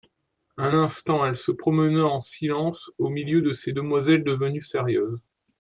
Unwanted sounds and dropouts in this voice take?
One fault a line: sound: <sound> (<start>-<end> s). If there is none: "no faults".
no faults